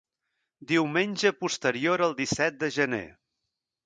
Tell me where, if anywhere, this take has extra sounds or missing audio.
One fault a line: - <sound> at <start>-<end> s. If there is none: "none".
none